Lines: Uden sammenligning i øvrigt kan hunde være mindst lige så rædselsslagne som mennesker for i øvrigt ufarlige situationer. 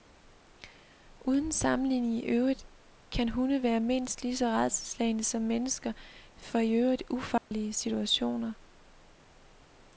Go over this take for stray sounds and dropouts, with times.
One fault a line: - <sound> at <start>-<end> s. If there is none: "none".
- dropout at 7.4-7.5 s